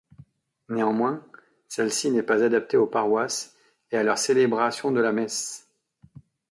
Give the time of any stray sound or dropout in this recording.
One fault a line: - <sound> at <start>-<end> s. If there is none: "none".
none